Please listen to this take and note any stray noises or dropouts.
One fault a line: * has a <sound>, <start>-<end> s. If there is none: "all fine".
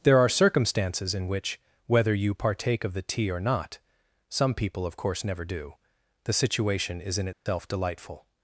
* has a dropout, 7.3-7.5 s